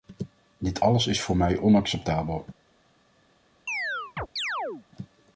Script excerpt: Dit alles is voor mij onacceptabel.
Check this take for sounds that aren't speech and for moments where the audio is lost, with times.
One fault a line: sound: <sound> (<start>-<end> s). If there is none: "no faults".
sound: chirp (3.7-4.9 s)